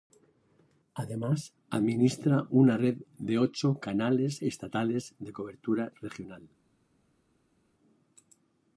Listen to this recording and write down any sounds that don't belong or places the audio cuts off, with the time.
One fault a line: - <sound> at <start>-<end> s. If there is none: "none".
none